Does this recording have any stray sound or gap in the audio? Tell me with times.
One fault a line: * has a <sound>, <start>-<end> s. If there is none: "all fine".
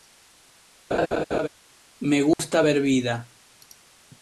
* has a laugh, 0.9-1.5 s
* has a dropout, 2.3-2.4 s